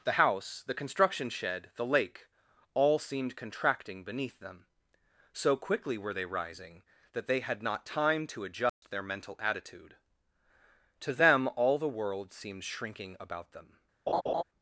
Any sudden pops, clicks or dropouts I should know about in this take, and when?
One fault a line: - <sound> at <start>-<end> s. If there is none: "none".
- dropout at 8.7-8.8 s
- laugh at 14.1-14.4 s